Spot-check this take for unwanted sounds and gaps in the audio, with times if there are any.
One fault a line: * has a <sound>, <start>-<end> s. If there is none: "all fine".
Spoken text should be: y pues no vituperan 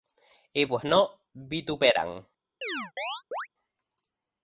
* has a chirp, 2.6-3.5 s